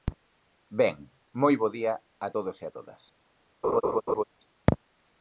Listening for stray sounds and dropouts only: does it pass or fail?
fail